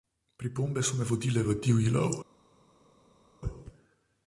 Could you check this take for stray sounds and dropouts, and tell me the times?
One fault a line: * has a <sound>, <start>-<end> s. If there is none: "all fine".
all fine